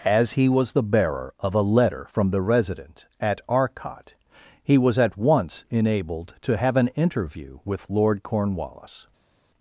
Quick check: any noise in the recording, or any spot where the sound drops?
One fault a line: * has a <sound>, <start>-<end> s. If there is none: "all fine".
all fine